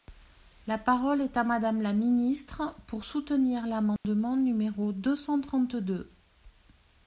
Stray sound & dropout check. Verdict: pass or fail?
fail